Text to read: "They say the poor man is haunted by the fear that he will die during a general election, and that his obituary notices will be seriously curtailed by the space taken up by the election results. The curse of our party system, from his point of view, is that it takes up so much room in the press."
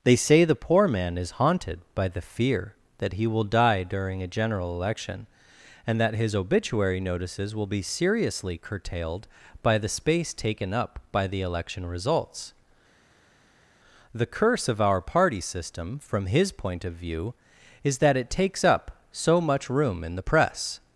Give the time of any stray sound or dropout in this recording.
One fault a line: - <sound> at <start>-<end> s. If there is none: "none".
none